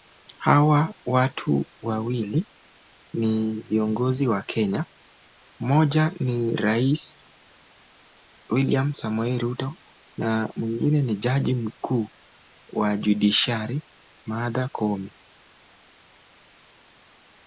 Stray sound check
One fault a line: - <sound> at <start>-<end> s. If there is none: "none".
none